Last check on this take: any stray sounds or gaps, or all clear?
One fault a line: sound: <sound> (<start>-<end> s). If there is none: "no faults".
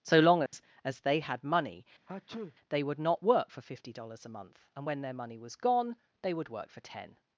sound: dropout (0.5-0.5 s)
sound: sneeze (2.1-2.6 s)